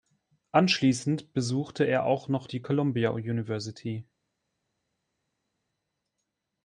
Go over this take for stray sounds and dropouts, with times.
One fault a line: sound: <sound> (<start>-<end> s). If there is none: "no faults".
no faults